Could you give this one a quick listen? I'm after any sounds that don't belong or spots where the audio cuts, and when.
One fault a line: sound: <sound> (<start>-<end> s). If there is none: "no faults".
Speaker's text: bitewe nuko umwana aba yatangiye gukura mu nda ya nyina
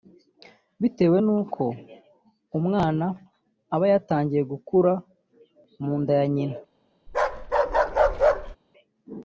sound: bark (7.1-8.6 s)